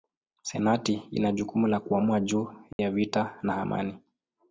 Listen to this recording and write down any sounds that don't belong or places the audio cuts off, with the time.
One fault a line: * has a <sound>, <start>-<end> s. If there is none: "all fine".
* has a dropout, 2.7-2.8 s